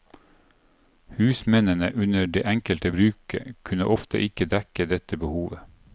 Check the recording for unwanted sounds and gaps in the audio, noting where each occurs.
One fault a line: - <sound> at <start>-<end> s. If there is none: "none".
none